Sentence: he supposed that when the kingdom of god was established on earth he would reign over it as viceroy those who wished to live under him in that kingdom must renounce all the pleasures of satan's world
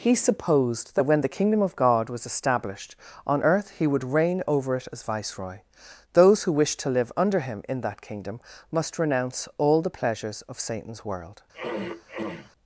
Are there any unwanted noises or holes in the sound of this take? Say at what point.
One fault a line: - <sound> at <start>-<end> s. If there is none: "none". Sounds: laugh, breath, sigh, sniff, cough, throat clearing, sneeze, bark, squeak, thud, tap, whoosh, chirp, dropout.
- throat clearing at 11.5-12.5 s